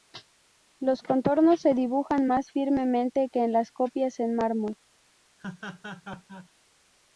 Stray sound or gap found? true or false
true